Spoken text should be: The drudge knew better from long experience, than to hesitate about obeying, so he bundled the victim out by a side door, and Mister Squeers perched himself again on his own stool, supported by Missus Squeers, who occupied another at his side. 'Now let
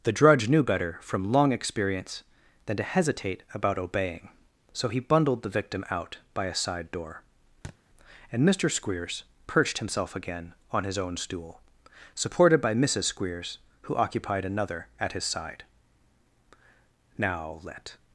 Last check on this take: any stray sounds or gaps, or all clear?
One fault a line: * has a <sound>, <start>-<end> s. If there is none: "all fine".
* has a thud, 7.6-7.8 s